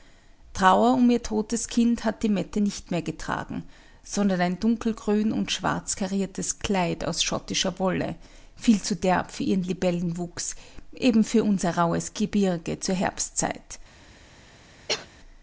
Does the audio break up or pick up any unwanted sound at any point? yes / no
yes